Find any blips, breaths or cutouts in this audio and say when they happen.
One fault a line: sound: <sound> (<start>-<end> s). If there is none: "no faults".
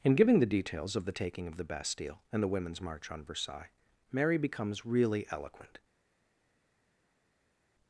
no faults